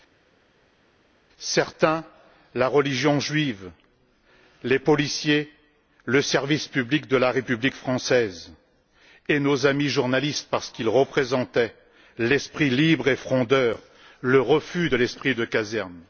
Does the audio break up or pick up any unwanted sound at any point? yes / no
no